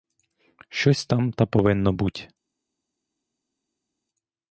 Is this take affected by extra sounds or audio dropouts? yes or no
no